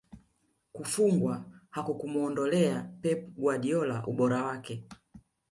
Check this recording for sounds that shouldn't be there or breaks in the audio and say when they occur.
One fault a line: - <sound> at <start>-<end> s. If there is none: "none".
none